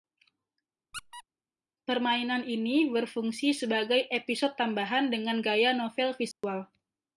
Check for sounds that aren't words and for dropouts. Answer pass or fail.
fail